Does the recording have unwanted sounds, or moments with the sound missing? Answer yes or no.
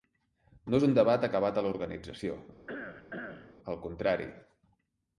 yes